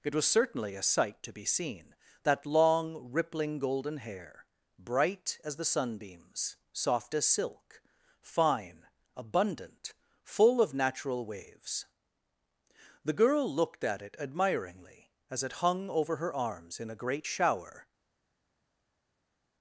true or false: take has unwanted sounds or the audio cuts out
false